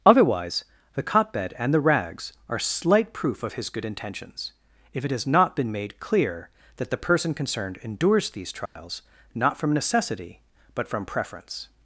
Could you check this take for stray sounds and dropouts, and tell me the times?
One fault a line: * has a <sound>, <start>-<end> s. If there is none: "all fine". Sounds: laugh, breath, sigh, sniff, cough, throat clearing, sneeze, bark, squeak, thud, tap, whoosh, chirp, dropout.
* has a dropout, 8.7-8.8 s